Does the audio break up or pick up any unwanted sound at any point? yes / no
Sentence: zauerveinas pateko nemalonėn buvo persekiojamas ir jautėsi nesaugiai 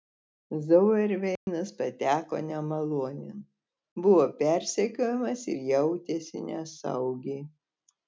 yes